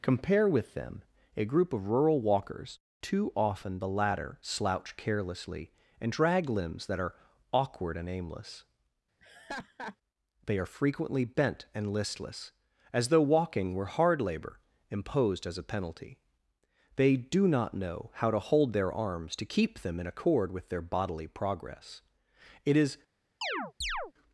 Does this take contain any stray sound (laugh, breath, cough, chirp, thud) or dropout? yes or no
yes